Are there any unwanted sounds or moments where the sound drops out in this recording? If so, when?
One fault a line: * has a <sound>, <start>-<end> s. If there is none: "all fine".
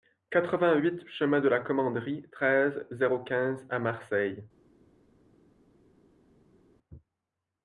all fine